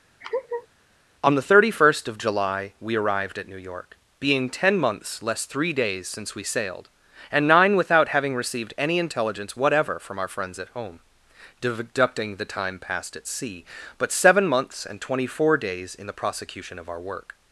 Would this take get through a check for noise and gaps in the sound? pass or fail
fail